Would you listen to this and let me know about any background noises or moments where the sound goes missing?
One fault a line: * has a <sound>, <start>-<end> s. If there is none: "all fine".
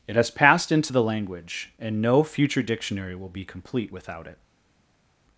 all fine